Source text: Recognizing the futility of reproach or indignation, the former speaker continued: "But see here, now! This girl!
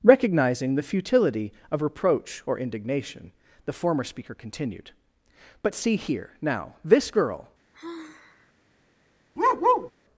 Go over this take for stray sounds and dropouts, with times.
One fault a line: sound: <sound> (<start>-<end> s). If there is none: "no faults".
sound: sigh (7.7-8.5 s)
sound: bark (9.4-9.9 s)